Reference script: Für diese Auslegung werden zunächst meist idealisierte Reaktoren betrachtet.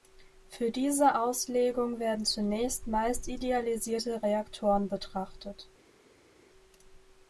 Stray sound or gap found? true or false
false